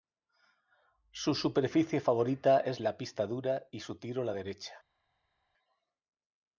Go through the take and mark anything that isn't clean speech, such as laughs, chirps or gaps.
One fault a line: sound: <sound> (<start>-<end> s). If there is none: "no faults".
no faults